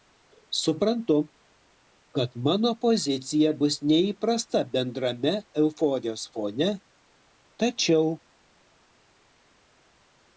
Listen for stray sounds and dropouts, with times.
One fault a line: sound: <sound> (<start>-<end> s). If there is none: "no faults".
no faults